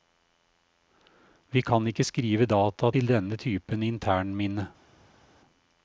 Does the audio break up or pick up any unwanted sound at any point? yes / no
no